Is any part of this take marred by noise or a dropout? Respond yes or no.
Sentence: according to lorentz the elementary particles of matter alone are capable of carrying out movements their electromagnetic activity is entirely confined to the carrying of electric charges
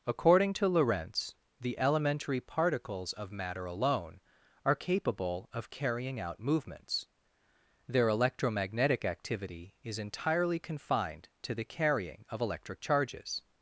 no